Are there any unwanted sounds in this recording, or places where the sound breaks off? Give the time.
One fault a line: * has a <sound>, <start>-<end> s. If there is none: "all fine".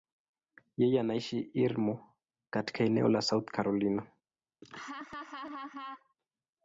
* has a laugh, 4.6-6.1 s